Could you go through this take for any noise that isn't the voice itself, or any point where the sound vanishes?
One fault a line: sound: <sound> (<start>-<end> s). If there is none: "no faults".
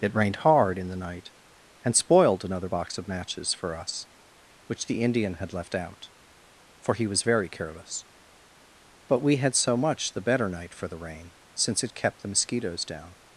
no faults